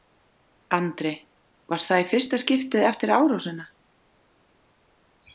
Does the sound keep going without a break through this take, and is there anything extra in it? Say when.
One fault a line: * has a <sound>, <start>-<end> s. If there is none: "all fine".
all fine